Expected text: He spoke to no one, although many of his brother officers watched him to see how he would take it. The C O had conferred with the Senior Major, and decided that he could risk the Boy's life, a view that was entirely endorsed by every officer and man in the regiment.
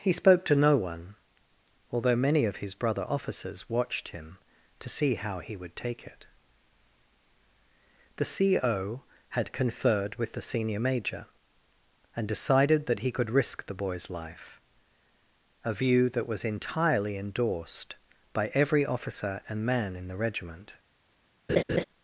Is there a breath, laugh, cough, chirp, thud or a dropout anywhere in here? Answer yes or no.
yes